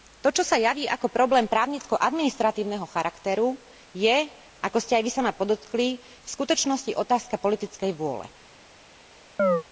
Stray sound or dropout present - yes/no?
yes